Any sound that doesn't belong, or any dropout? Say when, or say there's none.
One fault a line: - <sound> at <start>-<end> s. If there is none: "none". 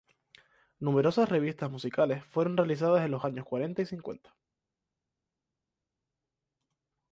none